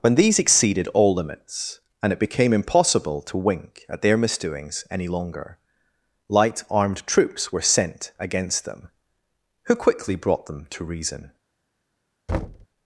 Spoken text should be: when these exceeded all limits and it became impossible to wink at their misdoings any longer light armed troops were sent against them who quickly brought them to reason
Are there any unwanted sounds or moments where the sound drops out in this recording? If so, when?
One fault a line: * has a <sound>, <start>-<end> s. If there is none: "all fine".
* has a thud, 12.3-12.7 s